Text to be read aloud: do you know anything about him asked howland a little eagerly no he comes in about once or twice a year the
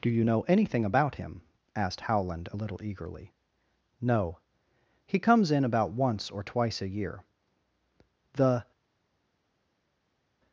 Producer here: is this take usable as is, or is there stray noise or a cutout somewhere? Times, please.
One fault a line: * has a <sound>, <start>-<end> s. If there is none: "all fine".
all fine